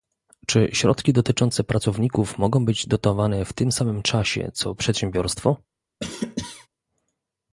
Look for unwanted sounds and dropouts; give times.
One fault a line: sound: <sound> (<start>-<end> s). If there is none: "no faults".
sound: cough (6.0-6.7 s)